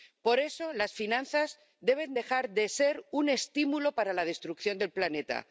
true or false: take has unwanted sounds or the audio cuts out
false